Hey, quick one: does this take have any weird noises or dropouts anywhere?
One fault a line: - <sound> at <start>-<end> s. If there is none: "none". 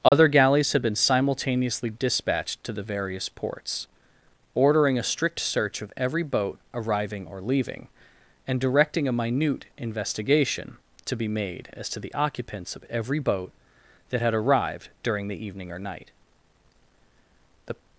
- dropout at 0.1-0.1 s